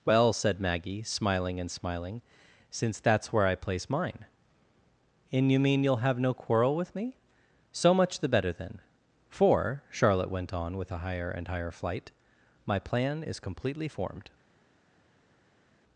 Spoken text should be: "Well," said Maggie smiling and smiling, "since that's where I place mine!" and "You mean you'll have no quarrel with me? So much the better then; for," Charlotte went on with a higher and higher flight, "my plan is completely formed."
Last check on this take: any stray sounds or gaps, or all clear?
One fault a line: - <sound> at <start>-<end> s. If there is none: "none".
none